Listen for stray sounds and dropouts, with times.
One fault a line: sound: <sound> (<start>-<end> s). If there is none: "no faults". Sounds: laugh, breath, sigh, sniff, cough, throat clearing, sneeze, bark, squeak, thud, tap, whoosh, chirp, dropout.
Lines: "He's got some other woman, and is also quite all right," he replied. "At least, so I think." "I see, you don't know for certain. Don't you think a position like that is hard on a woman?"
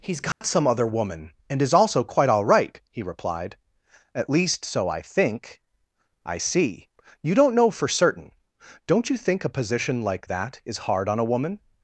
sound: dropout (0.3-0.4 s)